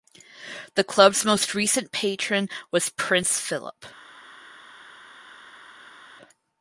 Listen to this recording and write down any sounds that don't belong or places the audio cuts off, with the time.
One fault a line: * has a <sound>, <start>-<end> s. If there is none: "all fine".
all fine